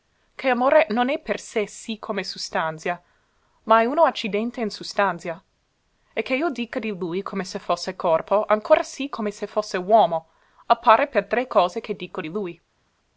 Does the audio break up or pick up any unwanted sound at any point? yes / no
no